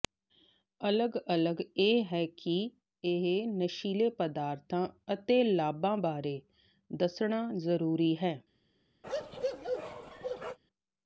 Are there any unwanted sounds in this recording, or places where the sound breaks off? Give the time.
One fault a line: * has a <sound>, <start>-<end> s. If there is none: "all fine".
* has a bark, 9.0-10.6 s